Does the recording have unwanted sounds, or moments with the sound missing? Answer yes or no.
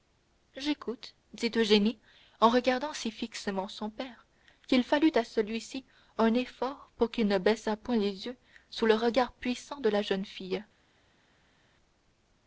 no